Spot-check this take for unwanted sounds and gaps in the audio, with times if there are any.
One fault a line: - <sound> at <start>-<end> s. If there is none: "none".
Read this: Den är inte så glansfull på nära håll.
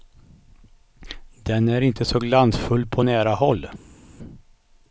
none